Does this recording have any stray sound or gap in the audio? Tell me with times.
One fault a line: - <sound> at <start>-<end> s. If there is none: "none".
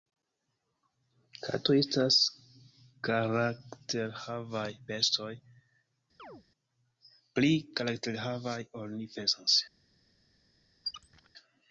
- chirp at 6.2-6.4 s
- squeak at 10.8-11.3 s